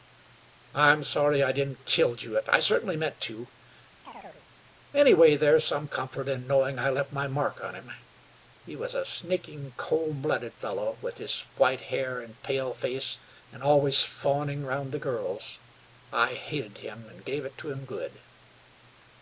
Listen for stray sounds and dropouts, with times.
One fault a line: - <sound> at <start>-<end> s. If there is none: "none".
- chirp at 4.0-4.4 s